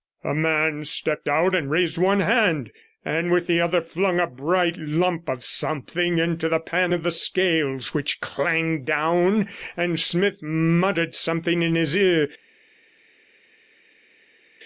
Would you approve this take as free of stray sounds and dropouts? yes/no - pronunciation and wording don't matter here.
yes